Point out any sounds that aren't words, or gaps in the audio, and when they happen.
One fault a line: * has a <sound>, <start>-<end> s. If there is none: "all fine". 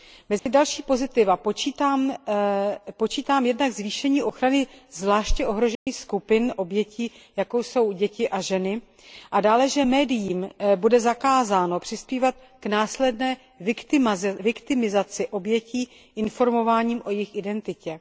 * has a dropout, 0.4-0.5 s
* has a dropout, 5.7-5.9 s